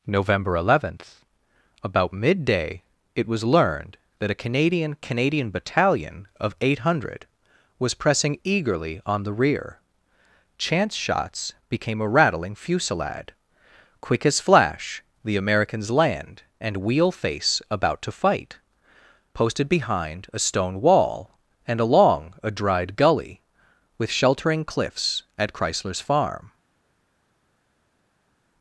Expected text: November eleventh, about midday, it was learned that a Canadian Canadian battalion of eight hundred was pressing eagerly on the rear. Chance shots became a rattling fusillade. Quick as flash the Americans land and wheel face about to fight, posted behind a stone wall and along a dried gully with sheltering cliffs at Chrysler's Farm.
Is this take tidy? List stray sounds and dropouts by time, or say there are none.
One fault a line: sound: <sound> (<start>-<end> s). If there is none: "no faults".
no faults